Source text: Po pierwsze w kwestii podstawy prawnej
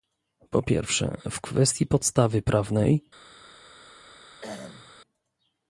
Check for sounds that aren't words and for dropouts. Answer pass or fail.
fail